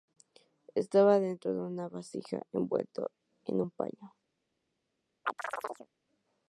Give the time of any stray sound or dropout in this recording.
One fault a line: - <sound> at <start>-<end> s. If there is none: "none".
- chirp at 5.3-5.9 s